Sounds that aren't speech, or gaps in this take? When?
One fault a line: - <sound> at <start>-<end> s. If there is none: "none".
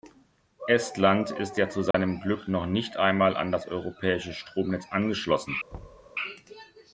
- dropout at 1.9-1.9 s
- thud at 5.7-6.1 s